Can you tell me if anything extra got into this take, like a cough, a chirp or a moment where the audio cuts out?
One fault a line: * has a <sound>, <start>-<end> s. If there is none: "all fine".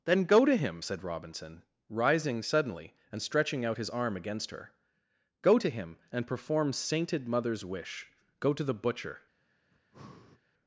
* has a breath, 9.7-10.4 s